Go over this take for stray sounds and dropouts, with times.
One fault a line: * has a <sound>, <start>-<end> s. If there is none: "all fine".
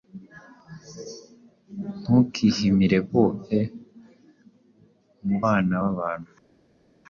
all fine